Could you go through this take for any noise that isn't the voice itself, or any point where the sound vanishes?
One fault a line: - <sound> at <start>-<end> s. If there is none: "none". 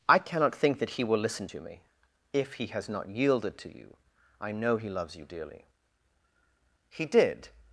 none